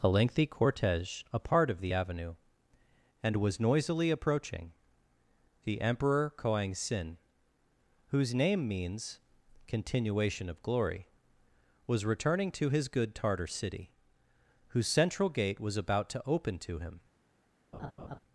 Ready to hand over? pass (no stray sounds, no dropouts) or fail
fail